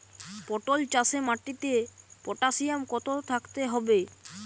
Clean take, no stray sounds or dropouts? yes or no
yes